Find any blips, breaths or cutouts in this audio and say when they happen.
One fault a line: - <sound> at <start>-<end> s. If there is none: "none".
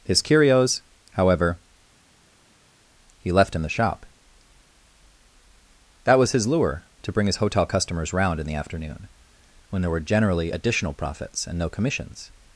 none